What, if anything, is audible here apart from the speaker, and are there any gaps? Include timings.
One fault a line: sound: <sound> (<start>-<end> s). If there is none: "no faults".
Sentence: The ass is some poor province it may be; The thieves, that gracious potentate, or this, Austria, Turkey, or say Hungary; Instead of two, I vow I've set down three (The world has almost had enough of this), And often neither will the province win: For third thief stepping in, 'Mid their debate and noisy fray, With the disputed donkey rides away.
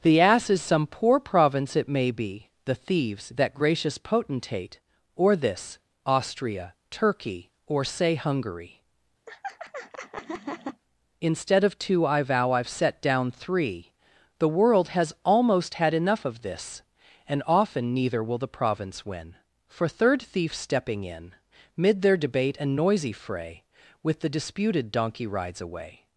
sound: laugh (9.3-10.8 s)